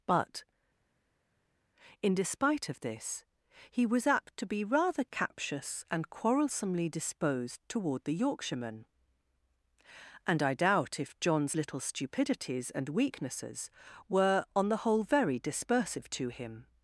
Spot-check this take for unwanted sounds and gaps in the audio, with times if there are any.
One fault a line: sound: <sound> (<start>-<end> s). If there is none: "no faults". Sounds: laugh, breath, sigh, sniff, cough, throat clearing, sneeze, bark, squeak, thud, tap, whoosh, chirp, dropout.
no faults